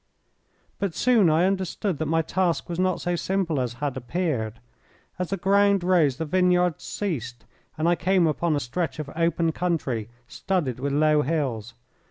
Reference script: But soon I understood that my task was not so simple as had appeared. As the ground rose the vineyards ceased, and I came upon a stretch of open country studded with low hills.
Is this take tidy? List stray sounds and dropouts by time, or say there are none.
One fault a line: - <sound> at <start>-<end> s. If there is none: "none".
none